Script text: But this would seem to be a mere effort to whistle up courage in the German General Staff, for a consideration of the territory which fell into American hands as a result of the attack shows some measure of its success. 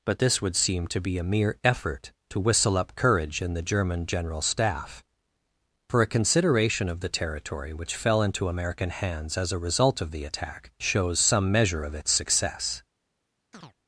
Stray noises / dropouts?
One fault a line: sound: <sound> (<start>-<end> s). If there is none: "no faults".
sound: chirp (13.5-13.7 s)